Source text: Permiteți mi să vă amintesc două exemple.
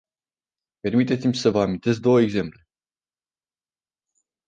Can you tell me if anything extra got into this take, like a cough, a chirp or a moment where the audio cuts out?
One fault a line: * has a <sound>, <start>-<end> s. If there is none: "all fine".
all fine